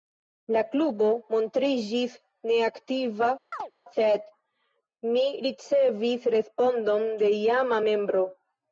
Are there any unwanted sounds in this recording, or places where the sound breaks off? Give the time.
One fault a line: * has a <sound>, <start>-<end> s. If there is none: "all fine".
* has a chirp, 3.5-3.7 s